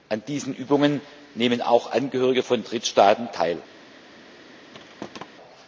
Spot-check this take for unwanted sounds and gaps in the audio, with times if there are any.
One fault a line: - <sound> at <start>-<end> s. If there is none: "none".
- thud at 4.7-5.3 s